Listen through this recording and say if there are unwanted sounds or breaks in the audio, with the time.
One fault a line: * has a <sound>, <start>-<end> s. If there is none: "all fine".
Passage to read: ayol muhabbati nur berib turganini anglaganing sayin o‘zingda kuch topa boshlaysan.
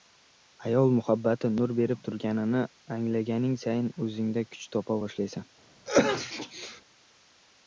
* has a sneeze, 5.9-6.8 s